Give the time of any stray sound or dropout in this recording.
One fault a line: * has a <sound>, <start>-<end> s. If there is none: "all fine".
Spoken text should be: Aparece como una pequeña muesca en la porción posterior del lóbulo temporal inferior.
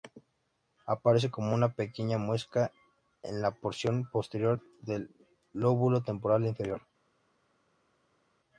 all fine